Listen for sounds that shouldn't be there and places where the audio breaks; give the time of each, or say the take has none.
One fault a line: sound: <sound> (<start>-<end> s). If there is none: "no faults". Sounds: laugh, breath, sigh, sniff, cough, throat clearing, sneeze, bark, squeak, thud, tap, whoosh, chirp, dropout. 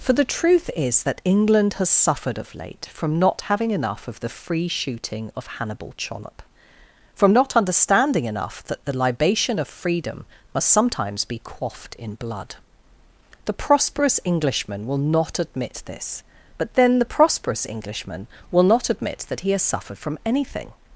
no faults